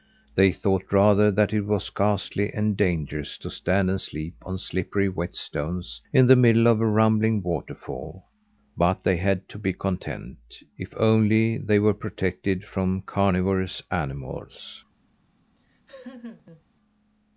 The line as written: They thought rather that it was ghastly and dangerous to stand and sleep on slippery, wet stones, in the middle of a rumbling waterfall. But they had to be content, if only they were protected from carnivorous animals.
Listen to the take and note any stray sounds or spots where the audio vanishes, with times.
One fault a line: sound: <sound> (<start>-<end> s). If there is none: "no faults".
sound: laugh (15.5-16.6 s)